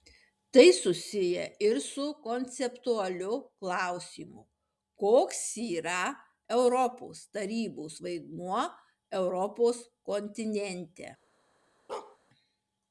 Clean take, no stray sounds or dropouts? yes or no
no